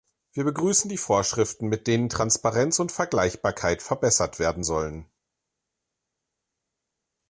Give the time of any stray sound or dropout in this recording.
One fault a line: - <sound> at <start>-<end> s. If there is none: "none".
none